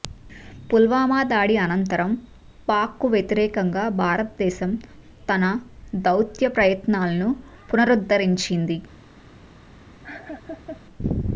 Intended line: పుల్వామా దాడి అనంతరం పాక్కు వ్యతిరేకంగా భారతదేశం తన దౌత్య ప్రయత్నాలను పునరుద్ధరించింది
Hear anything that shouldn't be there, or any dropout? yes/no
yes